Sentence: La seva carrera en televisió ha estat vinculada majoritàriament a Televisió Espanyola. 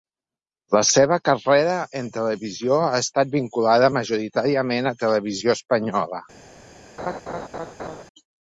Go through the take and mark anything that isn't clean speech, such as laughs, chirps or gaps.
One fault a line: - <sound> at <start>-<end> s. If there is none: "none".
- laugh at 7.0-8.0 s